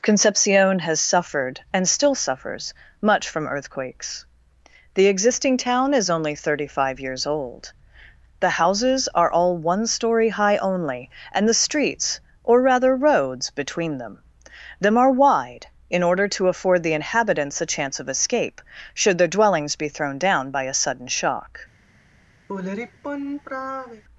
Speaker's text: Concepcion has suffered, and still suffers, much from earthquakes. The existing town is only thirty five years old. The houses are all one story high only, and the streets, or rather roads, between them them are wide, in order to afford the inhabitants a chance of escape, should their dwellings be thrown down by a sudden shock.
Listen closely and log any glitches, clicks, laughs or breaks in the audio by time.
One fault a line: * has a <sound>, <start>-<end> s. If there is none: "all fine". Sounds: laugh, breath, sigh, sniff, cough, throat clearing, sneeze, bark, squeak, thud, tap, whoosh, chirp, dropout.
* has a sigh, 22.5-24.0 s